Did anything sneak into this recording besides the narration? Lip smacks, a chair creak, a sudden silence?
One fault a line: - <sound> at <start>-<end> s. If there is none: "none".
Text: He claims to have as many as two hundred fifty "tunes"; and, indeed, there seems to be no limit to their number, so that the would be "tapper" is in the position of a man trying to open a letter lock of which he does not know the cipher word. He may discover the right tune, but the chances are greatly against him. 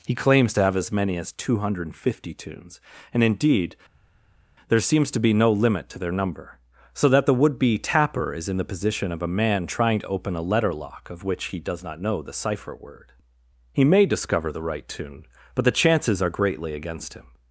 none